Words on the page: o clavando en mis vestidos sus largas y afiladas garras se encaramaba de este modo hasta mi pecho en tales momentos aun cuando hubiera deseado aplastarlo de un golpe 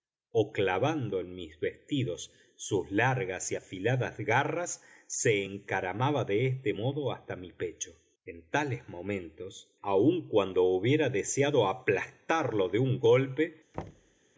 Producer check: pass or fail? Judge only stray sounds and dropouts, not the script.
fail